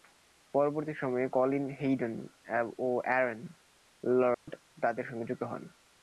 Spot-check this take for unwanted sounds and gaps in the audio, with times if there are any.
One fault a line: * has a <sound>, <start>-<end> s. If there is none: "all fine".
* has a dropout, 4.3-4.5 s